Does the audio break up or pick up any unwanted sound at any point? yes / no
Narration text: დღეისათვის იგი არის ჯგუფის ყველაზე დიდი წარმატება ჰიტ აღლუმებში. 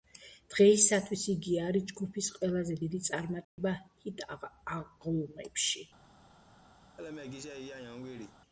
yes